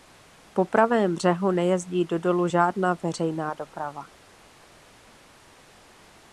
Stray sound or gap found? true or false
false